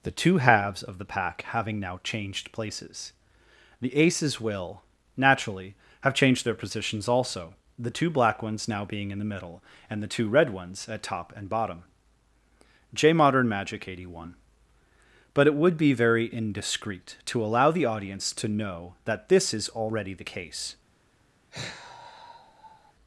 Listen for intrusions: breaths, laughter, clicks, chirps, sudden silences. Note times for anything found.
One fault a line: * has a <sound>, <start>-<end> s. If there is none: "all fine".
* has a sigh, 21.5-22.9 s